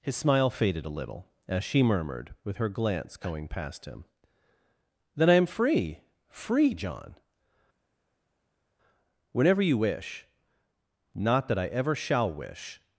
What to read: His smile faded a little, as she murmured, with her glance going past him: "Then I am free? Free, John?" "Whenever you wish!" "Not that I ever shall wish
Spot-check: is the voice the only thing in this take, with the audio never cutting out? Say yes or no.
yes